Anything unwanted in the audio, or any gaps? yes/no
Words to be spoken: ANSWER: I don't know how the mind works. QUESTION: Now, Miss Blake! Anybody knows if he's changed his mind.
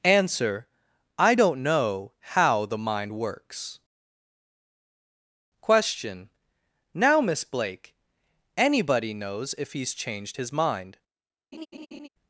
yes